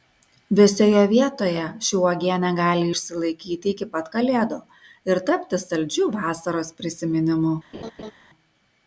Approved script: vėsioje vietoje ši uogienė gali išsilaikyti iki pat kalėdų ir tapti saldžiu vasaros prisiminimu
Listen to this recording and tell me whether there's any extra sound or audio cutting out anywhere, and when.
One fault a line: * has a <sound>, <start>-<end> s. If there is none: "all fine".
* has a laugh, 7.7-8.1 s